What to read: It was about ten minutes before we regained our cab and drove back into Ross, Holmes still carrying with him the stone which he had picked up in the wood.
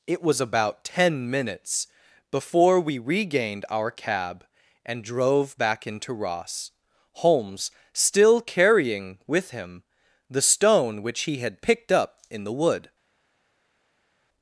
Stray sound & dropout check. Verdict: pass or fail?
pass